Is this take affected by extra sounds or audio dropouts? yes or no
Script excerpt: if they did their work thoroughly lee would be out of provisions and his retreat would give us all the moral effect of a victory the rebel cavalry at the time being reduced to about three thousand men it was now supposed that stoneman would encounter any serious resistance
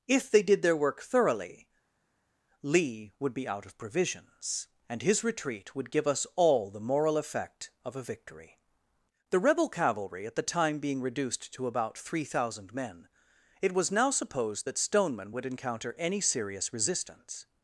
no